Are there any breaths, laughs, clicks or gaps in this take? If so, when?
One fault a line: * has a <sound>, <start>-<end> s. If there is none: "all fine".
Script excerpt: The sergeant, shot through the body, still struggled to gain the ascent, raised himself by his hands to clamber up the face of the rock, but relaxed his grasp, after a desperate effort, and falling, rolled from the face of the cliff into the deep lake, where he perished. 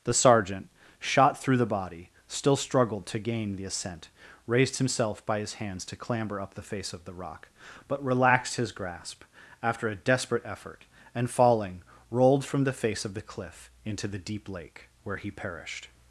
all fine